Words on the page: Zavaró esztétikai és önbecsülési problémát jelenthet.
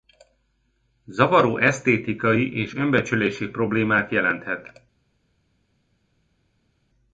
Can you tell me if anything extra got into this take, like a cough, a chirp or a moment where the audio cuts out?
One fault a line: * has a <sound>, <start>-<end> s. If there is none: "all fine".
all fine